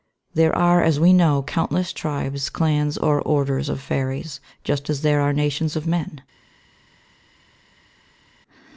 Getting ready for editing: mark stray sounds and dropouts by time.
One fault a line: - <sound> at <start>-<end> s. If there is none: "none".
none